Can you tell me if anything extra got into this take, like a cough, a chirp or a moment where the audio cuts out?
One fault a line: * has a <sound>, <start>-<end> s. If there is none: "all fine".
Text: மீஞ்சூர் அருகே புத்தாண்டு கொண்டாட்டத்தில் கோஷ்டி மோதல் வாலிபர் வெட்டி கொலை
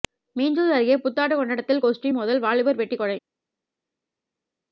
all fine